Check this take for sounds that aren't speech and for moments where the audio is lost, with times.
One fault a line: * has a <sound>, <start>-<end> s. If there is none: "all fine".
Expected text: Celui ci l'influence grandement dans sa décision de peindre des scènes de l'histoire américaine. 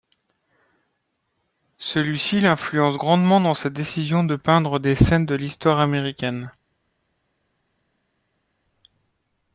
all fine